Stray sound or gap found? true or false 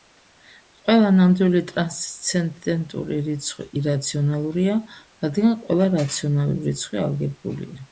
false